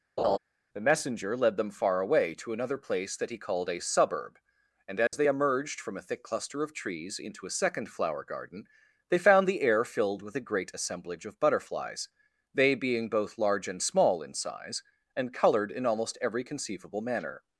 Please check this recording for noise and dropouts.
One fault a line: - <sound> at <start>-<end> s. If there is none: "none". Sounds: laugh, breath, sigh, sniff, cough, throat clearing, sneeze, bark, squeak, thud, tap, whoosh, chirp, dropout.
- laugh at 0.2-0.4 s
- dropout at 5.1-5.1 s